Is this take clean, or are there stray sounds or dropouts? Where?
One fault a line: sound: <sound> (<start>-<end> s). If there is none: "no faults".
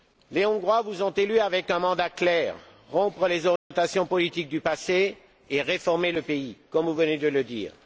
sound: dropout (3.6-3.7 s)